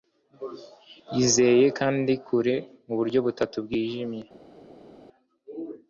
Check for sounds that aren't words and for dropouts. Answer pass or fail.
pass